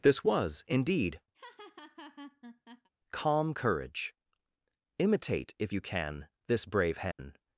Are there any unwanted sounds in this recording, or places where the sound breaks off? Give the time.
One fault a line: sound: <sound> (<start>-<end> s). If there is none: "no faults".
sound: laugh (1.3-2.9 s)
sound: dropout (7.1-7.2 s)